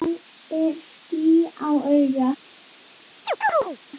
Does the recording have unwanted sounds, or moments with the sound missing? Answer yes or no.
yes